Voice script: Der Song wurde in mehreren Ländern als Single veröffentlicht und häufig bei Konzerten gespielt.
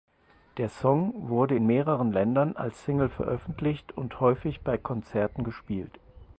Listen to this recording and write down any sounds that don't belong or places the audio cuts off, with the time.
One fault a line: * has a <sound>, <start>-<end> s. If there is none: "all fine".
all fine